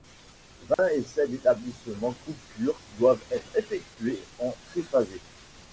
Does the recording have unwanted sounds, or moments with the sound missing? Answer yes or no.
yes